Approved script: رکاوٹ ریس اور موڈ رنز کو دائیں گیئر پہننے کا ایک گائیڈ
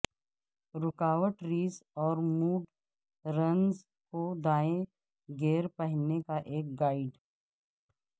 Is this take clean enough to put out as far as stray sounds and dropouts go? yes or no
yes